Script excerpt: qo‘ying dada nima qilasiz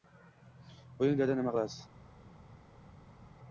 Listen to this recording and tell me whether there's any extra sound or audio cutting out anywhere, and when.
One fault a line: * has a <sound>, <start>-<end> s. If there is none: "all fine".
all fine